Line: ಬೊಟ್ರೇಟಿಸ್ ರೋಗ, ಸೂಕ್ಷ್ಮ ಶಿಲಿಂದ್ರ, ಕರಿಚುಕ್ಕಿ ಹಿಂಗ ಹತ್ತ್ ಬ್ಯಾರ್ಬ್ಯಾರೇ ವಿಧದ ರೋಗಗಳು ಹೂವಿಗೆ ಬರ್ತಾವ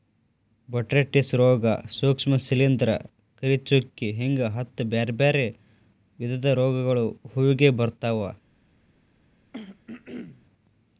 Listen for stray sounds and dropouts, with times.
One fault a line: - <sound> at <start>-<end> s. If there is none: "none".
- throat clearing at 9.5-10.5 s